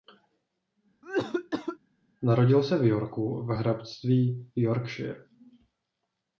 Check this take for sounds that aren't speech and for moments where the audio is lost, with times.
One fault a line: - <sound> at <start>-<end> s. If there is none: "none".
- cough at 1.0-1.8 s